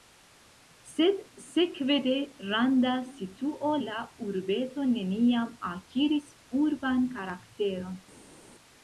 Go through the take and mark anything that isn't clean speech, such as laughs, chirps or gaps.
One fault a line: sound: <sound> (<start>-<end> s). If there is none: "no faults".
no faults